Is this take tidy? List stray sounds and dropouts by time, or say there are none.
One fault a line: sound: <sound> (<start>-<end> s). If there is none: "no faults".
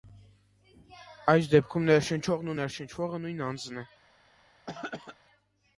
sound: throat clearing (4.7-5.2 s)